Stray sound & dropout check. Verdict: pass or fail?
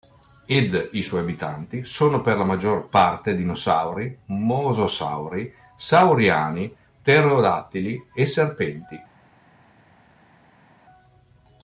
pass